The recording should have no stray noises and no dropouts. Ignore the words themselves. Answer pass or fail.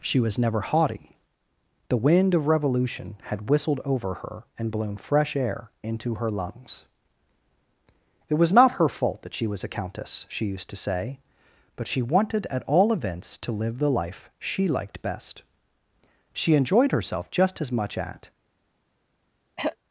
fail